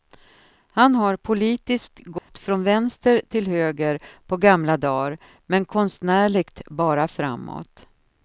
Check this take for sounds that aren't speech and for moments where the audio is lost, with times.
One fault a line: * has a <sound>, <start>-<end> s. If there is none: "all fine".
* has a dropout, 2.2-2.3 s